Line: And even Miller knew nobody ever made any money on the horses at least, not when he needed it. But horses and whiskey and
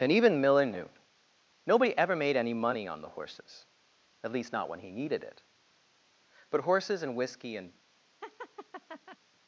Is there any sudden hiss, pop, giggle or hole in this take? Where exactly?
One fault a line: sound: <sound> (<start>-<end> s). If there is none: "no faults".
sound: laugh (8.2-9.2 s)